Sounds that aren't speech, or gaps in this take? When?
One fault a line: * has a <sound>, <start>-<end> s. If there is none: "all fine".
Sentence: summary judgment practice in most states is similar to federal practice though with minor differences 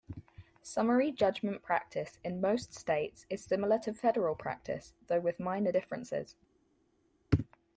all fine